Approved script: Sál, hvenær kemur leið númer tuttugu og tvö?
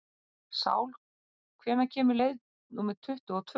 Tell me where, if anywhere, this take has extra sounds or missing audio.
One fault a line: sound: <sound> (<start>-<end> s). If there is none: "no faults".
no faults